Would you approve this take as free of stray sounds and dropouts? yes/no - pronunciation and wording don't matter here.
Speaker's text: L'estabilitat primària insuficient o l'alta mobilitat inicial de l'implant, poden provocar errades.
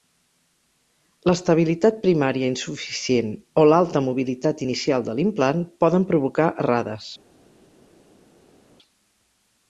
yes